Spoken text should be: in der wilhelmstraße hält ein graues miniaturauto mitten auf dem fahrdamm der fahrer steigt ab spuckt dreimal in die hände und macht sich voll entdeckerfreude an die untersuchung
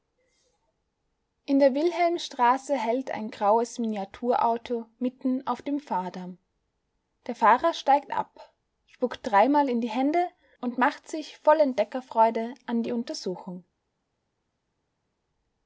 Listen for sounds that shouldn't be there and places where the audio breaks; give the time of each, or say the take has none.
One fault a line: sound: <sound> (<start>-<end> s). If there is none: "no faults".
no faults